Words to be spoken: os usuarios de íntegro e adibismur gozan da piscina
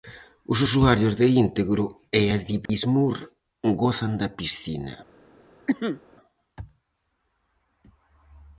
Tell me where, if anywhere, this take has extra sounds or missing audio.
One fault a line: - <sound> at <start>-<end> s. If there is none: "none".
- dropout at 2.7-2.7 s
- cough at 5.7-6.0 s